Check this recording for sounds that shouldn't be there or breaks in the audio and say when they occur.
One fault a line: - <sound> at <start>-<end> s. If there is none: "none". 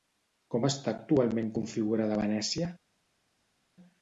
none